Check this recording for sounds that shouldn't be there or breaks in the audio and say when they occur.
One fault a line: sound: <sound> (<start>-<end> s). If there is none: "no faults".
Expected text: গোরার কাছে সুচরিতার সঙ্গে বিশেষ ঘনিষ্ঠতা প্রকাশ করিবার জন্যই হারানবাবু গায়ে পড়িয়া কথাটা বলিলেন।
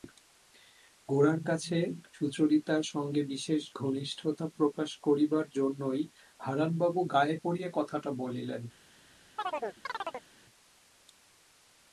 sound: chirp (9.4-10.3 s)